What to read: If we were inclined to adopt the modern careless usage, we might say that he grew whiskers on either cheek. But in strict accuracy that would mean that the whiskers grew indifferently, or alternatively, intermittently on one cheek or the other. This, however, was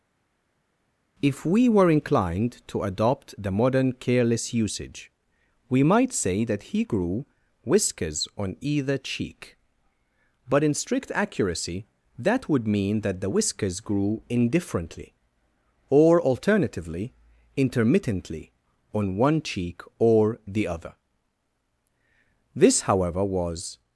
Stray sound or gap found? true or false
false